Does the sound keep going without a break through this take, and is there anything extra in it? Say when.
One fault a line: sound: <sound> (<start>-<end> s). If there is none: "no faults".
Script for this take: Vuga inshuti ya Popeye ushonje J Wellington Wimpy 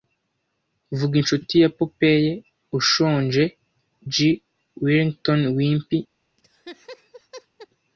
sound: laugh (6.4-7.7 s)